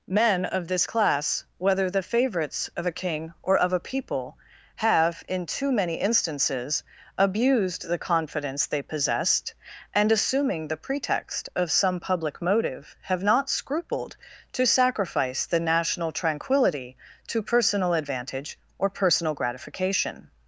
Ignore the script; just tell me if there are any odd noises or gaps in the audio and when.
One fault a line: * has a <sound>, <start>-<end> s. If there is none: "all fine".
all fine